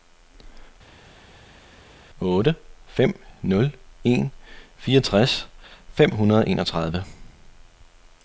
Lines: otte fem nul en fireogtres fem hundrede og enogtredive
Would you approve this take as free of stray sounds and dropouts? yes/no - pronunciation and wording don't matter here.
yes